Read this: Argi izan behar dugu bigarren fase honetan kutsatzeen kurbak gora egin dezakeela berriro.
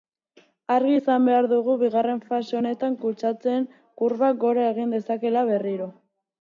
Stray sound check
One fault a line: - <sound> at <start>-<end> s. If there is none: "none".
none